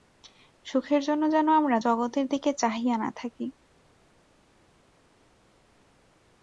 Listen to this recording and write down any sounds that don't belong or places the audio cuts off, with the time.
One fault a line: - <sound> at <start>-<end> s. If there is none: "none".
none